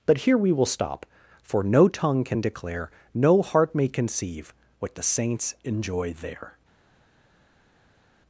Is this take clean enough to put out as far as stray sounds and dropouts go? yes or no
yes